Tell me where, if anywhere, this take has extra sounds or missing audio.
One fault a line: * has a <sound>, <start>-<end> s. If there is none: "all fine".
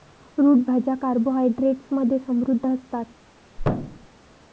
* has a thud, 3.6-4.1 s